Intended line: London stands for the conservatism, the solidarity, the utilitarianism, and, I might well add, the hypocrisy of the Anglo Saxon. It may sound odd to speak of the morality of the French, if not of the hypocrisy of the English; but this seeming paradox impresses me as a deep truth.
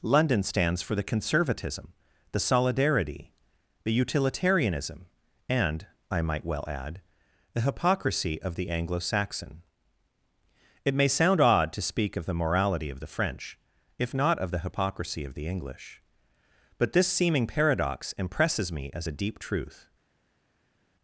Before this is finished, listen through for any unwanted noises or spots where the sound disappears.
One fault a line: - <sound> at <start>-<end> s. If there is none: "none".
none